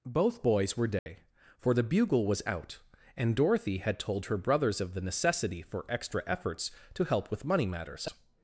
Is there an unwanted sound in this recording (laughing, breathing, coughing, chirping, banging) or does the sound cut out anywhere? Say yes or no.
yes